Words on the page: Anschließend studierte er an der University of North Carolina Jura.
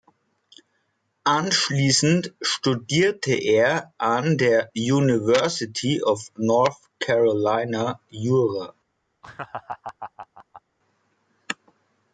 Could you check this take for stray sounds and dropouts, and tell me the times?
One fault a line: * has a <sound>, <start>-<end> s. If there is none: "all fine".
* has a laugh, 9.2-10.6 s